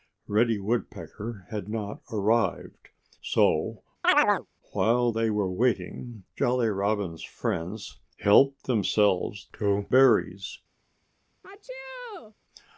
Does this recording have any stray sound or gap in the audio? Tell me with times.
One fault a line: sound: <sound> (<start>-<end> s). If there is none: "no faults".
sound: chirp (4.0-4.5 s)
sound: sneeze (11.4-12.3 s)